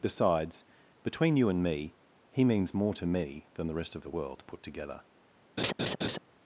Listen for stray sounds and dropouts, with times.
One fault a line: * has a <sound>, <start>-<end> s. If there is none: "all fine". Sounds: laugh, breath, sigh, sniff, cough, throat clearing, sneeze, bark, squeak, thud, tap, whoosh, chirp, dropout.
* has a laugh, 5.6-6.2 s